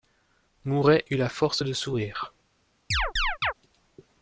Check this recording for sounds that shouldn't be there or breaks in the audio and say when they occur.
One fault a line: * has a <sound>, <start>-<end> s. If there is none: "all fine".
* has a chirp, 2.9-3.5 s